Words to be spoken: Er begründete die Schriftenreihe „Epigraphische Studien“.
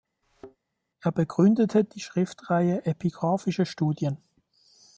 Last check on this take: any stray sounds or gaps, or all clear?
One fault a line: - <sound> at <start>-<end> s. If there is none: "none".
- thud at 0.2-0.6 s